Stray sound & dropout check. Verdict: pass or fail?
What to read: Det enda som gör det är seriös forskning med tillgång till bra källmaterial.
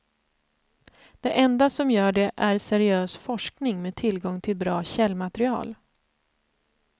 pass